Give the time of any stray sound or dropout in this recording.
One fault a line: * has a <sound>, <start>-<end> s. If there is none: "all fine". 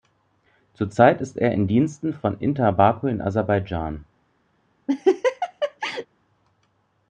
* has a laugh, 4.9-6.1 s